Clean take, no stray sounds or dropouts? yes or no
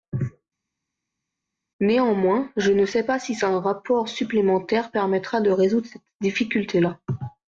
yes